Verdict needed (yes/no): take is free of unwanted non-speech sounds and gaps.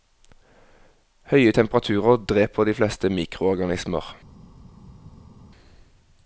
yes